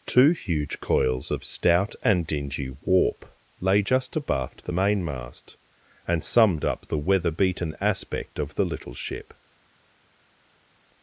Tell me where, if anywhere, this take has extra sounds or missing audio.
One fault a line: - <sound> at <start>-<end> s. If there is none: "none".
none